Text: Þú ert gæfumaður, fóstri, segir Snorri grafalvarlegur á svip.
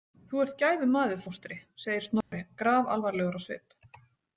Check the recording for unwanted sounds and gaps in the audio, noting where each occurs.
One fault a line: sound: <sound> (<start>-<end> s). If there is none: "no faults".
sound: dropout (2.2-2.3 s)